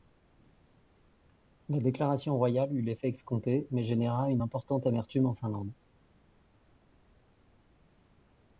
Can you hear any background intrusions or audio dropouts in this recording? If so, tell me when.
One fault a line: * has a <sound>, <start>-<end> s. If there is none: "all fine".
all fine